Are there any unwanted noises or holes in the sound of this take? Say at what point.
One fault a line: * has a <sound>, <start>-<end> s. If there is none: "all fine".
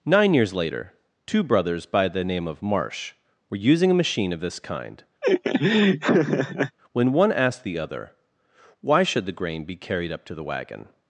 * has a laugh, 5.2-6.8 s